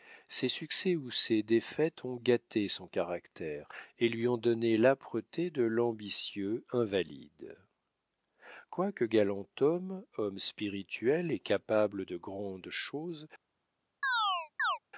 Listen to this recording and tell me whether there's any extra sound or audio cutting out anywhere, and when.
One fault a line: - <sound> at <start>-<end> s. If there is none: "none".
- chirp at 14.0-14.8 s